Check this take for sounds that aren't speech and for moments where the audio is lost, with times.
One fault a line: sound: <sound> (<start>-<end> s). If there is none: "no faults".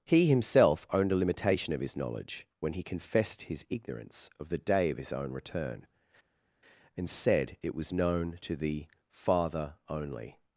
no faults